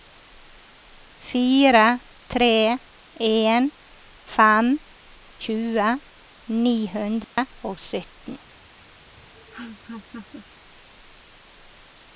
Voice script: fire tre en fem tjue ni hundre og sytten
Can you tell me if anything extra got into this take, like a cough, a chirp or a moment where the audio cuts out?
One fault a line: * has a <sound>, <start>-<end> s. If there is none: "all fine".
* has a dropout, 7.2-7.4 s
* has a laugh, 9.2-10.5 s